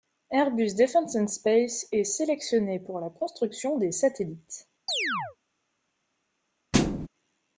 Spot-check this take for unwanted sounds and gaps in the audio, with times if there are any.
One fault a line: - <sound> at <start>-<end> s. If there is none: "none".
- chirp at 4.9-5.4 s
- thud at 6.7-7.1 s